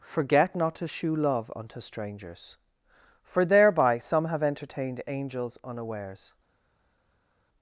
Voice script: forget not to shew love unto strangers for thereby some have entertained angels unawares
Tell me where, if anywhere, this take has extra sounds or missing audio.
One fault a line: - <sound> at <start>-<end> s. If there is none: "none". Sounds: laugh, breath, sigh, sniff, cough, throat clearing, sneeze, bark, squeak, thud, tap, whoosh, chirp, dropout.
none